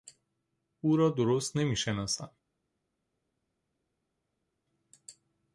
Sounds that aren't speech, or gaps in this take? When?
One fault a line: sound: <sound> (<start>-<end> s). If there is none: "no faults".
no faults